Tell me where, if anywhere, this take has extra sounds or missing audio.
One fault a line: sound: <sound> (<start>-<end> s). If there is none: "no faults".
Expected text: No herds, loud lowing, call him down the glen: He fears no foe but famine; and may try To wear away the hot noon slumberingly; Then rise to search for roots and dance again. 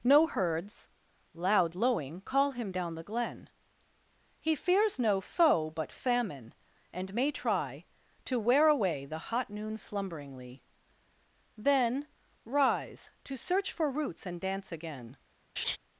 sound: laugh (15.6-15.8 s)